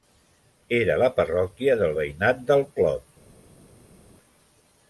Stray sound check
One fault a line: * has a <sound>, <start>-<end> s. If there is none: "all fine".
all fine